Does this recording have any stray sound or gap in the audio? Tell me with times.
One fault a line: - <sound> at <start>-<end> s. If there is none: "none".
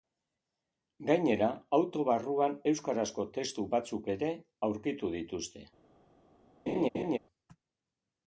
- laugh at 6.7-7.2 s